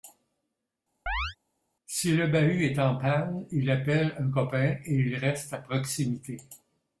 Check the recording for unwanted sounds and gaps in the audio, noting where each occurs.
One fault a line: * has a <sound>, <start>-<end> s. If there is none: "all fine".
* has a chirp, 1.1-1.4 s